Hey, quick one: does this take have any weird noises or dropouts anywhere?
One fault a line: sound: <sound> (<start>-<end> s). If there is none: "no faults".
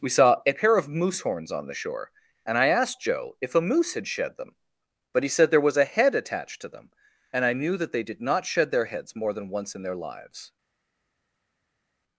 no faults